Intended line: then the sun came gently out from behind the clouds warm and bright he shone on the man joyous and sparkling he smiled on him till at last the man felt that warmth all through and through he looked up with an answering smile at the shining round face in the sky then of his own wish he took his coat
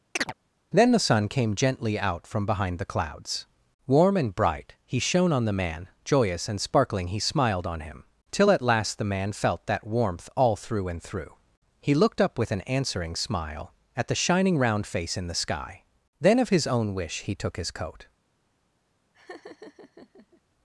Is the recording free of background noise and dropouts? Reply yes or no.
no